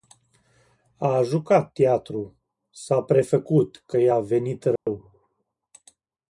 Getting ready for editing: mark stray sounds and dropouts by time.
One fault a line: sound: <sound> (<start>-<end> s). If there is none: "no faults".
sound: dropout (4.8-4.9 s)